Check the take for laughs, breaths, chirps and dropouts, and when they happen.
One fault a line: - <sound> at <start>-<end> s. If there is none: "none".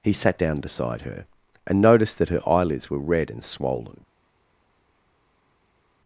none